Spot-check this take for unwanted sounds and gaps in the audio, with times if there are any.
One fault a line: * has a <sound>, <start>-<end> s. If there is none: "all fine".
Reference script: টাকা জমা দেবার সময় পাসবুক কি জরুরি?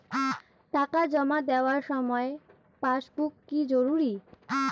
all fine